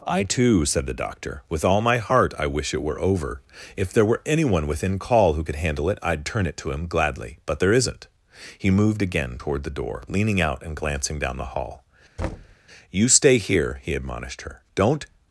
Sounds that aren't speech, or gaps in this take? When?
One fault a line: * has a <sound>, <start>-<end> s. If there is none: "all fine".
* has a thud, 12.2-12.6 s